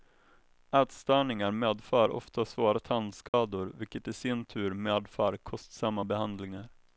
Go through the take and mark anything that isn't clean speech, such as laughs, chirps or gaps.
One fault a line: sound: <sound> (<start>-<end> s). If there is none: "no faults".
sound: dropout (3.3-3.3 s)